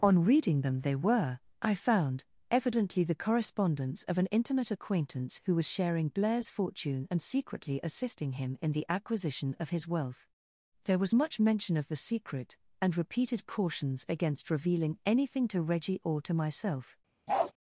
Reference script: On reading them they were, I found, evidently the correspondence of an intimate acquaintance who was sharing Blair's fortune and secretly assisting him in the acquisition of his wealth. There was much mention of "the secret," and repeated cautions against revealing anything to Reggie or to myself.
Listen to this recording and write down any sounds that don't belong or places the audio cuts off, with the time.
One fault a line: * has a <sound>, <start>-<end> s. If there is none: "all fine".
* has a bark, 17.3-17.5 s